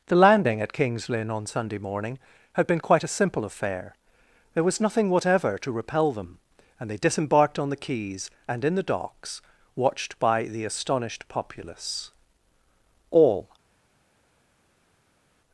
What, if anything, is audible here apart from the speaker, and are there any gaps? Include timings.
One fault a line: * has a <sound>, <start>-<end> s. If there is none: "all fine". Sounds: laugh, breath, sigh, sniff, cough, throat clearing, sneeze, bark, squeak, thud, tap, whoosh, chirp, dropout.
all fine